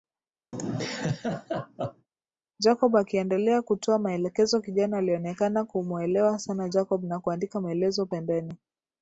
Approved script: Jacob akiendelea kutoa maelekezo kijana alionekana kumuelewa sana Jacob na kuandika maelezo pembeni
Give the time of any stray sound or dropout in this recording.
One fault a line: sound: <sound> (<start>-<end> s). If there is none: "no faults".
sound: laugh (0.5-2.1 s)